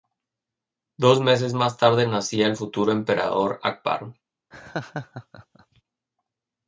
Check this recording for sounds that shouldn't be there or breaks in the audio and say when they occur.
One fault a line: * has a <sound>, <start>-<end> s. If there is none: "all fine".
* has a laugh, 4.5-5.8 s